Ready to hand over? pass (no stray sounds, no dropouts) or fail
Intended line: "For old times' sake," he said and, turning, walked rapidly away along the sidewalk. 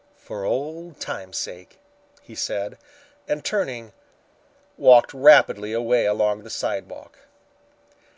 pass